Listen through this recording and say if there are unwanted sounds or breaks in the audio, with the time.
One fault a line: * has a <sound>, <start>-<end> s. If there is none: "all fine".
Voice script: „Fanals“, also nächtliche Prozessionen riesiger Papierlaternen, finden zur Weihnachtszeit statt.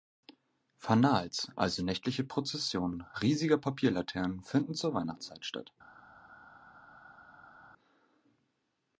all fine